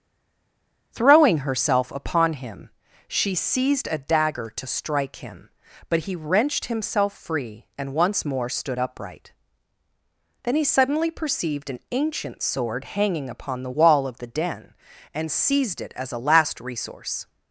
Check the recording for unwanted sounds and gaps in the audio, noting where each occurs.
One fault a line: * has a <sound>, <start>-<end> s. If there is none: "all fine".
all fine